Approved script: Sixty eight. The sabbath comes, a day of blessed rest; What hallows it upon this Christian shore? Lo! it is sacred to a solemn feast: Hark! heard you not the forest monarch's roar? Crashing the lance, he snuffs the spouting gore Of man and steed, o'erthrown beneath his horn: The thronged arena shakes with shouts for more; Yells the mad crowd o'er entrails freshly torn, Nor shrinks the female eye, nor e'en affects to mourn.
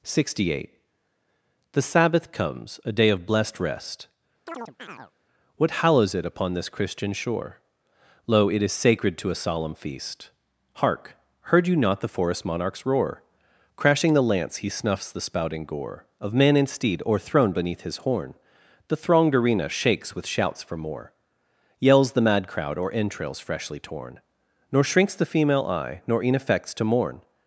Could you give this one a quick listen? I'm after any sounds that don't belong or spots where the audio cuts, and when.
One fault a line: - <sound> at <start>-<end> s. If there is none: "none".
- chirp at 4.5-5.1 s